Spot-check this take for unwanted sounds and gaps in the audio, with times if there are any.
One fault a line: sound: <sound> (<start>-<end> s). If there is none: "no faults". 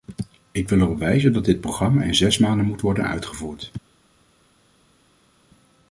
no faults